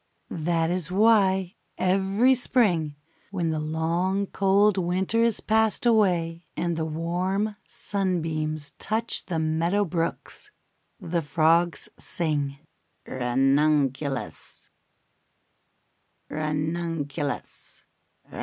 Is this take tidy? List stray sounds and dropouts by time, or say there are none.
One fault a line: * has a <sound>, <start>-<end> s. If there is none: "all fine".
all fine